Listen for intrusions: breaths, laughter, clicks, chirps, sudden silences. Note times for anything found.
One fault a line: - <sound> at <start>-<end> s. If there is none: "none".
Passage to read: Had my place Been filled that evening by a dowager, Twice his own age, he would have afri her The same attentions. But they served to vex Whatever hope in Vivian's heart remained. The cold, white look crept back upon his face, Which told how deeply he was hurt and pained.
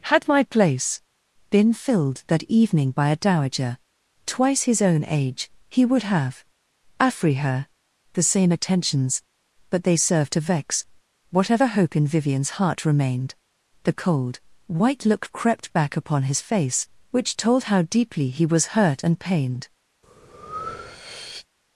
- breath at 20.0-21.5 s